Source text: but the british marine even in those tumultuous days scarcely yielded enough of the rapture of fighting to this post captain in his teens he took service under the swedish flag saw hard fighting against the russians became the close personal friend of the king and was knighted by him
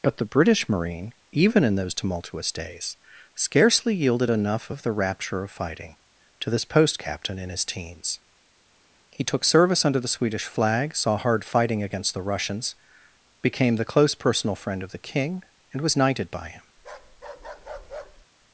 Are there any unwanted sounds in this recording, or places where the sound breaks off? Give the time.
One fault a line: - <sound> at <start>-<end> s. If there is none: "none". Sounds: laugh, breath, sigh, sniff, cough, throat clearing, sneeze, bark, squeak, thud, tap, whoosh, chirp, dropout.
- bark at 16.8-18.3 s